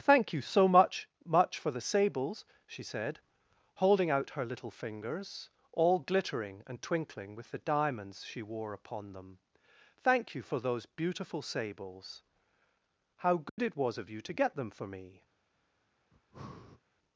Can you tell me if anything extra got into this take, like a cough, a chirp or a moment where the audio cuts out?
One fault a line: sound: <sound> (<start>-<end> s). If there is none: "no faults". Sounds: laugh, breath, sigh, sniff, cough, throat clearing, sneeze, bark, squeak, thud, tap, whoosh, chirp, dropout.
sound: dropout (13.5-13.6 s)
sound: breath (16.1-16.8 s)